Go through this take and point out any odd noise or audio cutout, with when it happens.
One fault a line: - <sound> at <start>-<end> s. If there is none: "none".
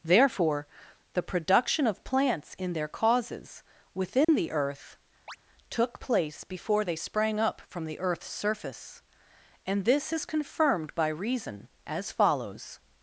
- dropout at 4.2-4.3 s
- chirp at 5.3-5.4 s